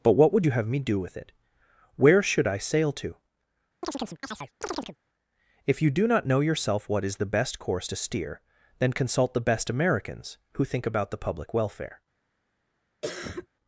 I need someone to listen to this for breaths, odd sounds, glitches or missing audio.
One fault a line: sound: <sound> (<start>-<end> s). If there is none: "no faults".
sound: chirp (3.8-5.0 s)
sound: cough (13.0-13.5 s)